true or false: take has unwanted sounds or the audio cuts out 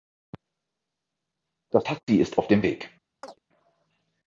true